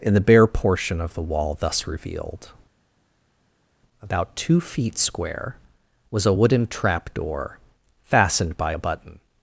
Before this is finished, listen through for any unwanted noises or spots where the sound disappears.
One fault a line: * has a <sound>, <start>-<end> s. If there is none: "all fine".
all fine